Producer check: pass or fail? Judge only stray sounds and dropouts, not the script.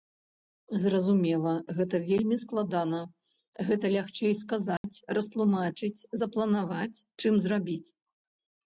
fail